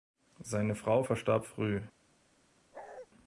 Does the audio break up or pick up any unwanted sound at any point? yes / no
yes